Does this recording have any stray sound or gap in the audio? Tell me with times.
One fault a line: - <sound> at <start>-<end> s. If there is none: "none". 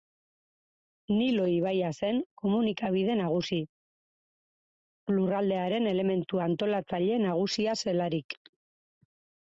none